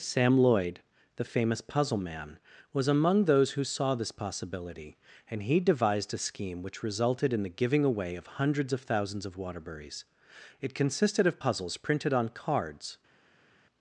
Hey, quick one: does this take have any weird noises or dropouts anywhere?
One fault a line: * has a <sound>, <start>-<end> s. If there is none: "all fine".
all fine